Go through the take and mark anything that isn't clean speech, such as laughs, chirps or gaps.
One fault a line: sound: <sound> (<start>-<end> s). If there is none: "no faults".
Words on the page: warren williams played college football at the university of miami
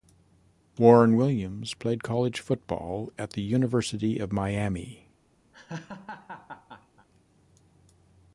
sound: laugh (5.5-7.1 s)